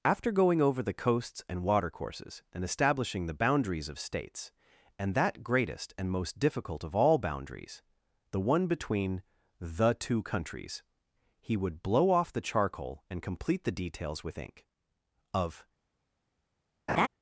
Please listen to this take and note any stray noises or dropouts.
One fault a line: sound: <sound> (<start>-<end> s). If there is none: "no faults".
sound: laugh (16.9-17.1 s)